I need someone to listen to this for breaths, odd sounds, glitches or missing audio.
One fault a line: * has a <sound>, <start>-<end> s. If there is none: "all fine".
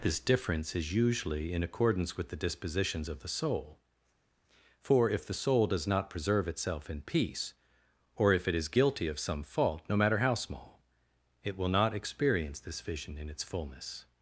all fine